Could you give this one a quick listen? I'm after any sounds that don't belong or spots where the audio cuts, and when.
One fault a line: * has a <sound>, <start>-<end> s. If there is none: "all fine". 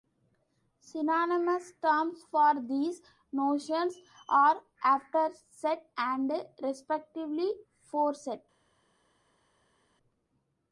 all fine